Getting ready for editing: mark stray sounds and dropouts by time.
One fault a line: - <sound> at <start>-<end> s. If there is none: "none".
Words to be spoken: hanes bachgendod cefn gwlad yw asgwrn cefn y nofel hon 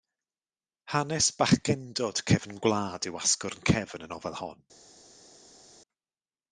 none